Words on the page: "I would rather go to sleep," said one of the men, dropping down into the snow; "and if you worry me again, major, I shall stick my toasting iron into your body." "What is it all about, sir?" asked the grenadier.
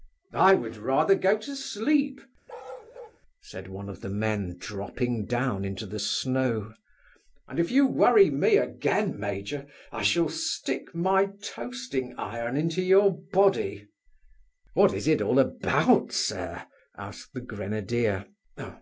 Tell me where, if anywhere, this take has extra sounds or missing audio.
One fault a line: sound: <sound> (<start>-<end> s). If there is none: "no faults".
sound: bark (2.5-3.2 s)